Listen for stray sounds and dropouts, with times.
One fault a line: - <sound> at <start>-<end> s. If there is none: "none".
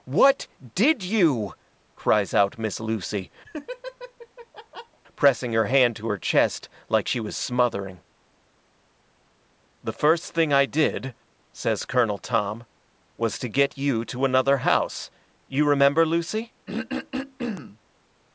- laugh at 3.4-5.0 s
- throat clearing at 16.7-17.8 s